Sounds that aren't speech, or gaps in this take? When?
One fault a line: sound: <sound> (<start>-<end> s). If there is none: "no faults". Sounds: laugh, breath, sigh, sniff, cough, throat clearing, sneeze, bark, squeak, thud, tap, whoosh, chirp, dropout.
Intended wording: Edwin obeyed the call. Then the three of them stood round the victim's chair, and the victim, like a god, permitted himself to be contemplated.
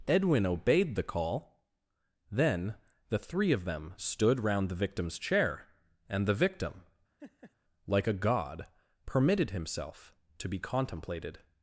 sound: laugh (7.2-7.5 s)